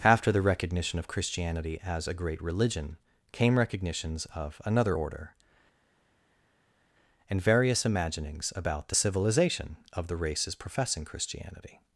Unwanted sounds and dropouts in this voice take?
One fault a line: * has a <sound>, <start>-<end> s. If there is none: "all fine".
all fine